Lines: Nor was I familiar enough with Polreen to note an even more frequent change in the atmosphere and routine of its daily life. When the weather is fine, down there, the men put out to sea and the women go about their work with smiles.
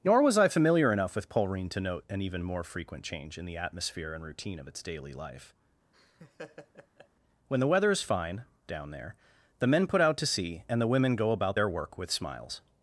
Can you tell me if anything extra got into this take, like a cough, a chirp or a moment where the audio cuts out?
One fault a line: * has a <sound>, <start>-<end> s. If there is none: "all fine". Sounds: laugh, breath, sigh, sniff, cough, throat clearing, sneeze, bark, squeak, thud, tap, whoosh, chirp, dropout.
* has a laugh, 5.9-7.1 s